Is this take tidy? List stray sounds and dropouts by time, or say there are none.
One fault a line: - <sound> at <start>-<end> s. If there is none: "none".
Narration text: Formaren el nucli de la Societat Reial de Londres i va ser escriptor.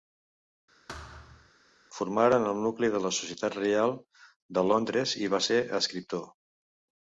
- thud at 0.9-1.5 s